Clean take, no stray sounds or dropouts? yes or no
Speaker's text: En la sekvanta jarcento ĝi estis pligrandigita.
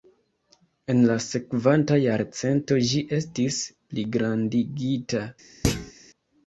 no